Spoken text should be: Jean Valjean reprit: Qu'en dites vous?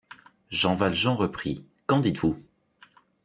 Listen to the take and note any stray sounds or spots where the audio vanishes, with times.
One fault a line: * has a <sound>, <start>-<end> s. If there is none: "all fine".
all fine